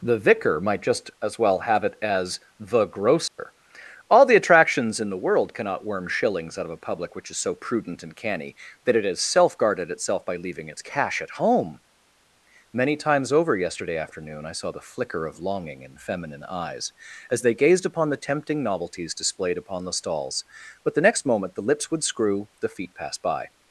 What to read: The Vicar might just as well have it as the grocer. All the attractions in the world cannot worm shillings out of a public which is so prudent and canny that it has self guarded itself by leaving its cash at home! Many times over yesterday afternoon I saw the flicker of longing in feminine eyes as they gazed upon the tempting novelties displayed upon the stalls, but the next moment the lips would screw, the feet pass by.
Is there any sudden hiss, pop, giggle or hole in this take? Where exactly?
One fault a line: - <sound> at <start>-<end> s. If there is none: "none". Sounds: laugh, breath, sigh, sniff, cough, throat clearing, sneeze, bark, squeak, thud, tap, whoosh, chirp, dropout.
- dropout at 3.3-3.4 s